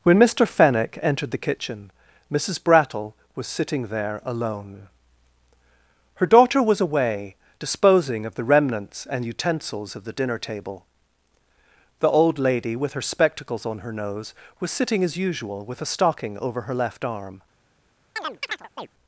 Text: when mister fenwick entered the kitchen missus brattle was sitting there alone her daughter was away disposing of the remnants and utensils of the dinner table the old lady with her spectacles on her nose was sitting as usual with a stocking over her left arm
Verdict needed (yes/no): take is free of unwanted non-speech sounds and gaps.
no